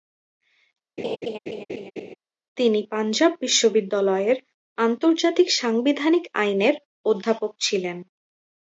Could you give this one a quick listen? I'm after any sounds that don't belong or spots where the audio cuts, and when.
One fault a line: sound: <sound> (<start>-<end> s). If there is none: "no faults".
sound: laugh (1.0-2.2 s)